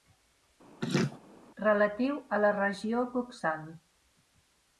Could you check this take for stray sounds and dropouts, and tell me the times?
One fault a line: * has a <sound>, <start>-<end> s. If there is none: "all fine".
* has a laugh, 0.8-1.2 s